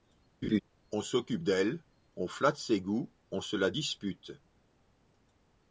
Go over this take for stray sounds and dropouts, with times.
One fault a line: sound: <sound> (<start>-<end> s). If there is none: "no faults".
sound: laugh (0.4-0.6 s)